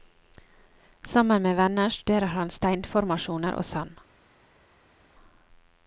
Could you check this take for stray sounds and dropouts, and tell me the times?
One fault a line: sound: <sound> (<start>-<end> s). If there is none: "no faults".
no faults